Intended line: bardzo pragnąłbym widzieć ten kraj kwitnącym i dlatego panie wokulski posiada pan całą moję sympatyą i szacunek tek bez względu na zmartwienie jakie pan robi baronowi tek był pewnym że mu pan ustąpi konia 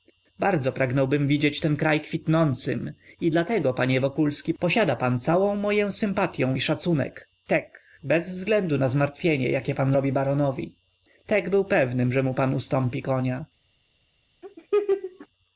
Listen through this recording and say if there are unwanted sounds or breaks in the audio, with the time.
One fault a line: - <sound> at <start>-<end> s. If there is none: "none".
- laugh at 14.4-15.3 s